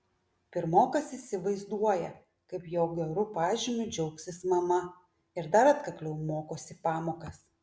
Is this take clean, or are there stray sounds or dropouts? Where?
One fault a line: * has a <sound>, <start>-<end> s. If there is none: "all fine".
all fine